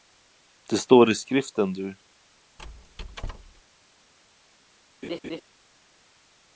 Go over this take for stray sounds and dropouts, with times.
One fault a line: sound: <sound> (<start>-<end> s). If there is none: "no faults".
sound: squeak (2.6-3.6 s)
sound: laugh (5.0-5.4 s)